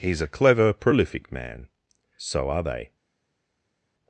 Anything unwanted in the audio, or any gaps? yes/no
no